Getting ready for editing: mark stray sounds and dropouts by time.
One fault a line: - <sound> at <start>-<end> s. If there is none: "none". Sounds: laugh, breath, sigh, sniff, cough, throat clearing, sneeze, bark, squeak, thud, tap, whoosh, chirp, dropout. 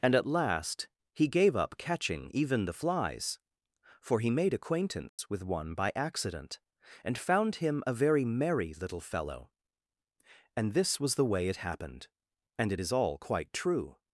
- dropout at 5.1-5.2 s